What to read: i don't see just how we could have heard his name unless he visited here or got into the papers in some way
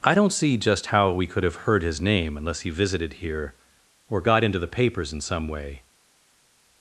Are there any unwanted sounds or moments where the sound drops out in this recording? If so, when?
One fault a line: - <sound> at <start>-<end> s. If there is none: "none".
none